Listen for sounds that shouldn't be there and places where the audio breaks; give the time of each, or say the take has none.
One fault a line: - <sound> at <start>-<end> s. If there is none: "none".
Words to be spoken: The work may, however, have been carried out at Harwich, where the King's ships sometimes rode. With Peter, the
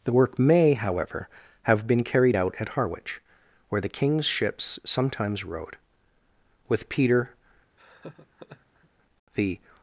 - laugh at 7.8-8.9 s